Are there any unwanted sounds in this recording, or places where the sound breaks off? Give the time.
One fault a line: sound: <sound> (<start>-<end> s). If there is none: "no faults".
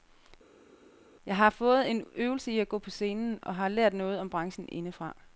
no faults